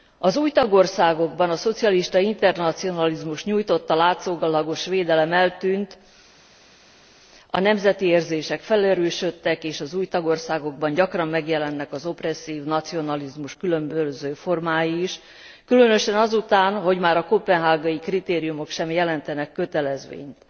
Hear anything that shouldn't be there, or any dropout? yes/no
no